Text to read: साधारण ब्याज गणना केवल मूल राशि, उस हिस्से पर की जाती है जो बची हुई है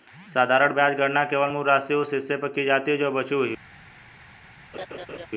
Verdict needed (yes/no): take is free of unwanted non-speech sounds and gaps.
no